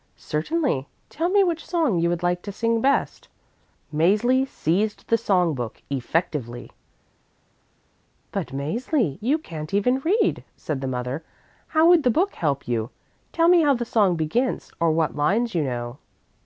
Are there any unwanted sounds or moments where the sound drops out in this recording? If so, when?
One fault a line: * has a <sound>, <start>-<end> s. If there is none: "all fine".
all fine